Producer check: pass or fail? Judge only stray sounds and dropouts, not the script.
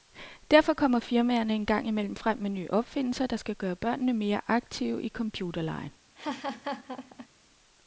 fail